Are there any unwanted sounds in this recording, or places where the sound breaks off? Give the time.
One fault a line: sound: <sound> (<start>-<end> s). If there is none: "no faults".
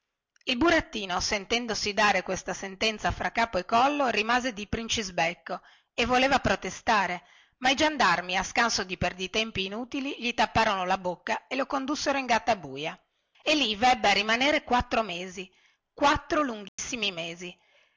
sound: dropout (16.7-16.8 s)